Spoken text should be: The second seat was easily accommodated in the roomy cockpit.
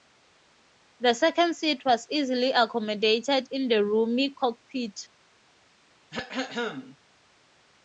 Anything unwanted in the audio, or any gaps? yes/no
yes